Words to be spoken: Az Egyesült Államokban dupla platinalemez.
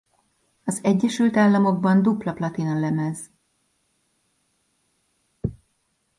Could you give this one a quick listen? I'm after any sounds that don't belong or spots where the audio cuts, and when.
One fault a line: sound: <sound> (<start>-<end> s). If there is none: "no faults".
no faults